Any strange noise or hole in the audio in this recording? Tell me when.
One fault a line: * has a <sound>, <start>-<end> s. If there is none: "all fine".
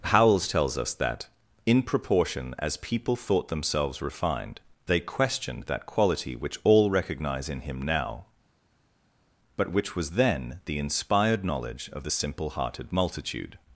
all fine